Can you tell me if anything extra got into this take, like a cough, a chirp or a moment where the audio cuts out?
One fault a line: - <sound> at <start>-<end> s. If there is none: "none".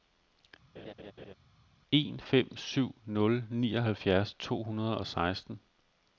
- laugh at 0.8-1.3 s